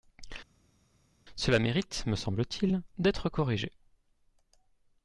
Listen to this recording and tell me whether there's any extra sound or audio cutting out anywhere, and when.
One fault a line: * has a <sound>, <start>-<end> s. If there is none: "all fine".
all fine